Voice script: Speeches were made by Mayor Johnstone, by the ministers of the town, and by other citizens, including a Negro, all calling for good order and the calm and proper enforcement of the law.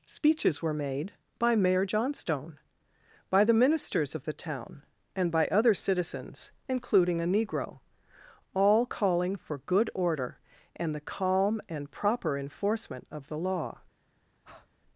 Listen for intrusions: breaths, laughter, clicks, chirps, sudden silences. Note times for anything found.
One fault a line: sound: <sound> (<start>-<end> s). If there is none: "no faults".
sound: breath (14.4-14.7 s)